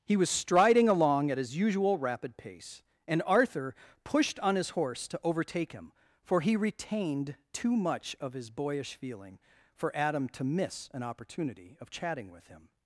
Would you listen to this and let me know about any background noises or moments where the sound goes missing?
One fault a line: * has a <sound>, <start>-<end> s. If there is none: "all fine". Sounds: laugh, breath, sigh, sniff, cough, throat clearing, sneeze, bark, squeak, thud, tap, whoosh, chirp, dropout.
all fine